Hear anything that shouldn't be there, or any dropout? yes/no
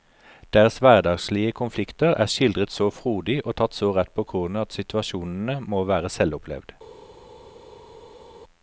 no